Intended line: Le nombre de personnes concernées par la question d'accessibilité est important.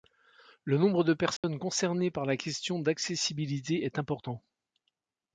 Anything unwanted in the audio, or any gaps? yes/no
yes